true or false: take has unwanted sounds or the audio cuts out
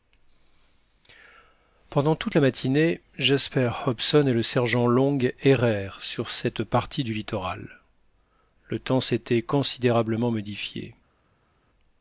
false